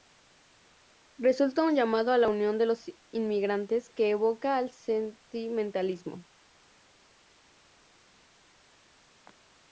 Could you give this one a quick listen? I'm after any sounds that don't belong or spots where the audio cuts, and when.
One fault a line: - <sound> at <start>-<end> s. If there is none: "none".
none